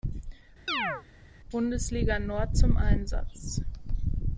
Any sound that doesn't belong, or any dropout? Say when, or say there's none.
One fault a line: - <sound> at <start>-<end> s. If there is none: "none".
- chirp at 0.7-1.0 s